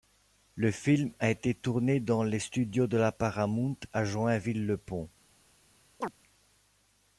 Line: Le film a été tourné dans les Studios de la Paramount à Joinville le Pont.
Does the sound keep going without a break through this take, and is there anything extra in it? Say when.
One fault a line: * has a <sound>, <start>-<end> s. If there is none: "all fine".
* has a chirp, 6.0-6.1 s